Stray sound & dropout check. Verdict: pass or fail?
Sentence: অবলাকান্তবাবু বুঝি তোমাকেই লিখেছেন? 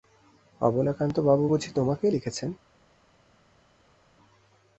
pass